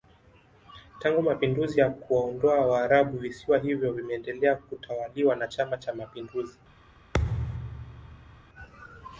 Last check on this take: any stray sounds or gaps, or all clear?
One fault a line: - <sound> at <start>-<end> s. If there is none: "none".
- thud at 7.1-8.4 s